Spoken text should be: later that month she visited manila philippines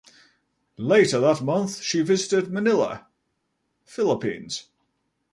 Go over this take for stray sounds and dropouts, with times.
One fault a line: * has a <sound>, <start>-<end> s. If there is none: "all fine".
all fine